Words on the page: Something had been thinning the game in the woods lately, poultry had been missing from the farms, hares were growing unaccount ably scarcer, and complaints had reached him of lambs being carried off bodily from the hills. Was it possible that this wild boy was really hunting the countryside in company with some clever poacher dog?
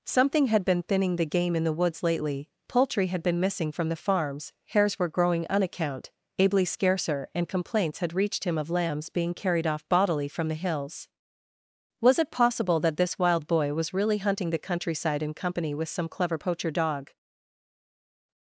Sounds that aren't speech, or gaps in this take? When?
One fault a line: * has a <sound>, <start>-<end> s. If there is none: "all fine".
all fine